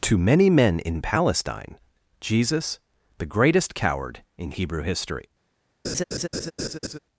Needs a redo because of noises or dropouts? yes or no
yes